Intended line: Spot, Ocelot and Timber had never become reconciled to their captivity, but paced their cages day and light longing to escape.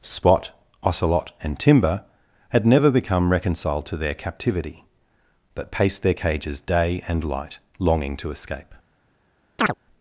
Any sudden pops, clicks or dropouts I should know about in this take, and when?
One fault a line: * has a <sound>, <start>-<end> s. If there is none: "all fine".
* has a chirp, 9.6-9.7 s